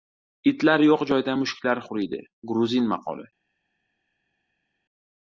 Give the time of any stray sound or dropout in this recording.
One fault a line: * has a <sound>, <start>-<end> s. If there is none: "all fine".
all fine